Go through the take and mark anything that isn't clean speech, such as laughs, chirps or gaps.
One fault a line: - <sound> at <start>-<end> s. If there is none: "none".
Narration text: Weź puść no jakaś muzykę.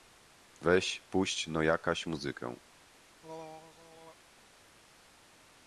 - throat clearing at 3.2-4.2 s